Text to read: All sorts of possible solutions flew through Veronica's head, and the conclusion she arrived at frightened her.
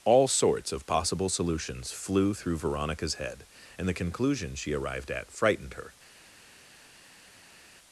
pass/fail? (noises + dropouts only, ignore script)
pass